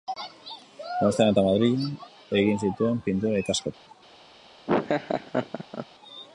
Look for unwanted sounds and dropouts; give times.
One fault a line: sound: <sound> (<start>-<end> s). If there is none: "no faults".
sound: dropout (3.7-3.9 s)
sound: laugh (4.7-5.9 s)